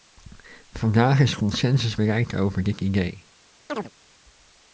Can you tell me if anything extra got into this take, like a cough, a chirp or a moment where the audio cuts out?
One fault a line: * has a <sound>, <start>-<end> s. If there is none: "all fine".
* has a chirp, 3.7-3.9 s